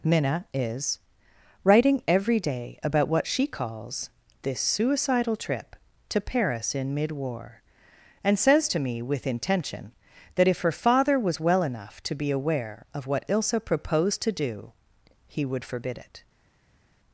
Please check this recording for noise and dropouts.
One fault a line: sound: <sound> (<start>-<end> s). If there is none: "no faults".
no faults